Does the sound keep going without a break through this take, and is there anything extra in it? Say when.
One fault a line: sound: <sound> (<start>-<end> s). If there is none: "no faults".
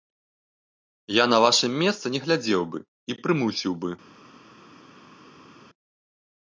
no faults